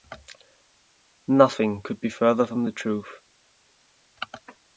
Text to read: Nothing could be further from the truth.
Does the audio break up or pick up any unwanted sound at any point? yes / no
no